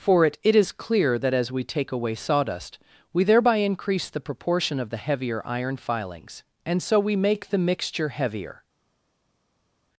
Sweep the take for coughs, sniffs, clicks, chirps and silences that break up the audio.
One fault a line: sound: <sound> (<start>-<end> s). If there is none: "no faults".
no faults